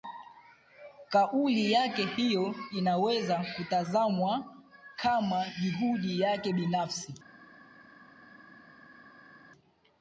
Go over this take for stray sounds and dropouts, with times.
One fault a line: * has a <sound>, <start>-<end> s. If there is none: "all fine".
all fine